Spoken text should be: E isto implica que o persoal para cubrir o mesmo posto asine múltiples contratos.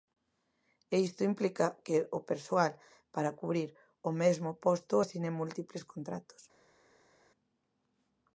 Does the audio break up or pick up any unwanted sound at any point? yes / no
no